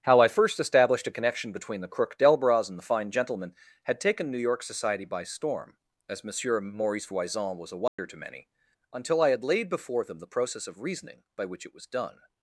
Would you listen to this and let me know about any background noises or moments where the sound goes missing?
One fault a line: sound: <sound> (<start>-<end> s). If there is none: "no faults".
sound: dropout (7.9-8.0 s)